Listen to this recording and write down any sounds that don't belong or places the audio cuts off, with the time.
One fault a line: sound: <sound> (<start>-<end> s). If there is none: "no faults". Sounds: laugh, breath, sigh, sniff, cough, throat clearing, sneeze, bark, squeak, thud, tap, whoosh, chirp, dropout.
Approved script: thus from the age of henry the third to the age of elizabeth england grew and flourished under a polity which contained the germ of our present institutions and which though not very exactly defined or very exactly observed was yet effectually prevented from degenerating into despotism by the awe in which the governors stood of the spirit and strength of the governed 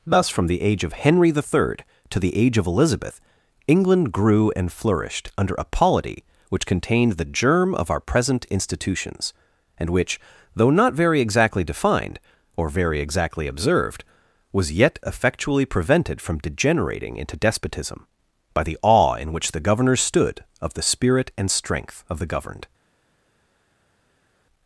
no faults